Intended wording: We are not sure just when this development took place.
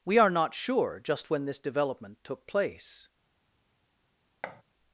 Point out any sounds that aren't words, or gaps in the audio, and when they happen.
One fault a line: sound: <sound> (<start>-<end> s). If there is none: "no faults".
sound: thud (4.4-4.6 s)